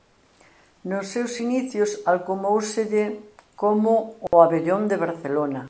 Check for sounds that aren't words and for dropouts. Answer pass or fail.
fail